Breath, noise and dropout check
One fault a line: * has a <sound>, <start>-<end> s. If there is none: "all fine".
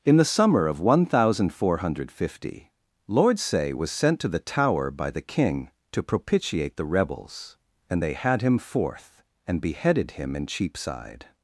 all fine